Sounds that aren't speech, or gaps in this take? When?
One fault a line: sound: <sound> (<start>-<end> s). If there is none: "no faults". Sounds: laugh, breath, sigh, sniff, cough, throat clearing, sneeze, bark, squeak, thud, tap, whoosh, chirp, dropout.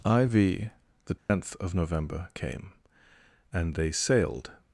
sound: dropout (1.2-1.3 s)